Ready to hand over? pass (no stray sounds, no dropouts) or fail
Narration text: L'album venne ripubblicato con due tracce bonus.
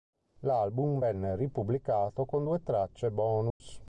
fail